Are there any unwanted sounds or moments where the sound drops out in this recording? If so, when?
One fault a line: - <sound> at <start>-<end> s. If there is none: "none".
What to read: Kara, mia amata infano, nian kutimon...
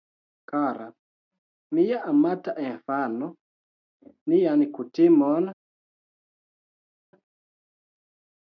none